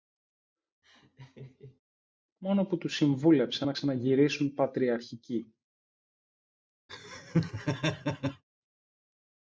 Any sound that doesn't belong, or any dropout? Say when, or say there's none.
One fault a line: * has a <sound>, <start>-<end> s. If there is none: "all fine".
* has a laugh, 0.8-1.8 s
* has a laugh, 6.9-8.4 s